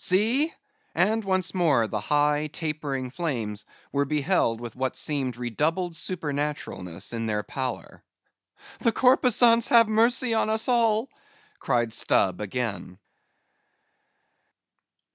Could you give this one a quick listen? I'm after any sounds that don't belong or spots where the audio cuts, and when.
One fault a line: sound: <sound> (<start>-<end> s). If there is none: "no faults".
no faults